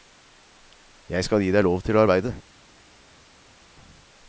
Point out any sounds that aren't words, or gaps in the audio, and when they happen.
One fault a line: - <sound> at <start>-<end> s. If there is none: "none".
none